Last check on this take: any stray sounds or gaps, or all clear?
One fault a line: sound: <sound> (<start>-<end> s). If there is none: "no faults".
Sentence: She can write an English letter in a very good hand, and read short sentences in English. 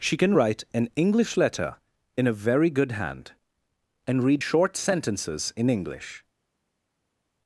no faults